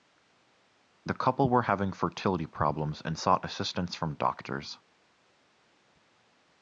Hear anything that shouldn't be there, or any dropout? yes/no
no